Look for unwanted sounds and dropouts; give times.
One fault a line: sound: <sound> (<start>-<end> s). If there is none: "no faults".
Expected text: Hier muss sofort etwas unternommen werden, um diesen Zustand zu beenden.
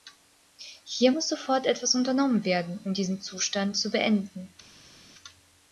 no faults